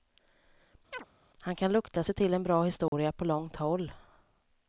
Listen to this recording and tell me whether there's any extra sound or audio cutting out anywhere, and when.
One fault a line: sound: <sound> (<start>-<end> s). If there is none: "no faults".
sound: chirp (0.9-1.1 s)
sound: dropout (2.9-2.9 s)